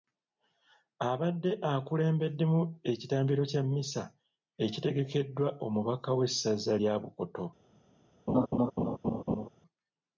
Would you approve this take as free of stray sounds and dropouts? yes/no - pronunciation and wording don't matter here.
no